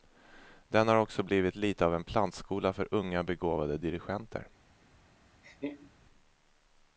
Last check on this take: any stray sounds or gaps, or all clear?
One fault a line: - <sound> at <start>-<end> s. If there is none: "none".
- laugh at 5.4-5.9 s